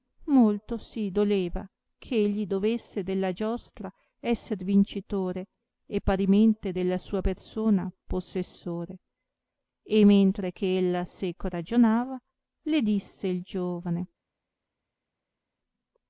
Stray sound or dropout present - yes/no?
no